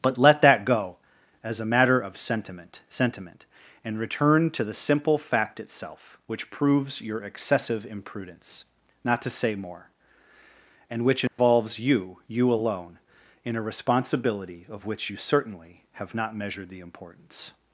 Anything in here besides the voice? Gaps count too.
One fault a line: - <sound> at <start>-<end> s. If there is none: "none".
- dropout at 11.3-11.4 s